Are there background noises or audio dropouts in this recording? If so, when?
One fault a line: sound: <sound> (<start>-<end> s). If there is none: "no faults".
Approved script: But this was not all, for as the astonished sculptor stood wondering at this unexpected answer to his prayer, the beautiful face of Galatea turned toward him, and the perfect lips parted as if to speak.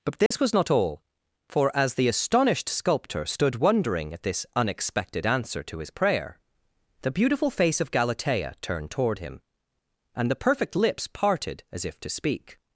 sound: dropout (0.3-0.3 s)